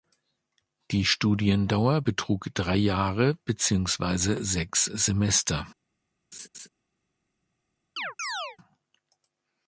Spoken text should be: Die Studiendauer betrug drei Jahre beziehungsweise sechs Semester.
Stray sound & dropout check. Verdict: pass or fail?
fail